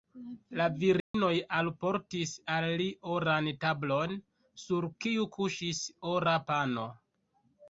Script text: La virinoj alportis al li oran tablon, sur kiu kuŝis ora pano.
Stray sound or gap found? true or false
true